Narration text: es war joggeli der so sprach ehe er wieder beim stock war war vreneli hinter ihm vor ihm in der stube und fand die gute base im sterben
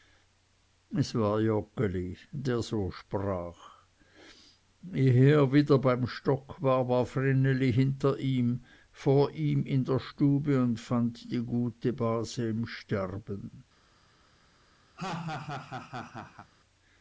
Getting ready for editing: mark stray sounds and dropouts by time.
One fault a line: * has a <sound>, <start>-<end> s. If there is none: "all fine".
* has a laugh, 15.0-16.5 s